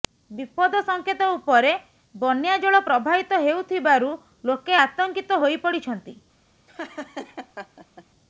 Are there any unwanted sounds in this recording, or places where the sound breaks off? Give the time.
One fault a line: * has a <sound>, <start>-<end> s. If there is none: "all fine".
* has a laugh, 6.7-8.1 s